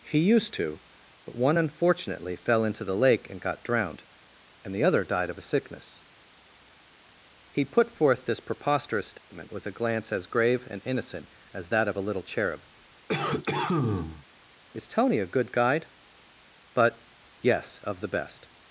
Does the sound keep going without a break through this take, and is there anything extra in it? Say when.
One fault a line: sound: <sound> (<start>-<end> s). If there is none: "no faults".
sound: dropout (9.2-9.3 s)
sound: cough (13.1-14.3 s)